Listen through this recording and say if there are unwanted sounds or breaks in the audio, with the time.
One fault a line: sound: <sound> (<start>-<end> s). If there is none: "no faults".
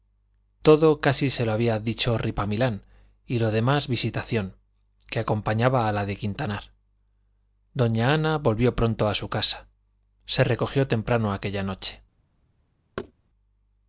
sound: thud (13.0-13.1 s)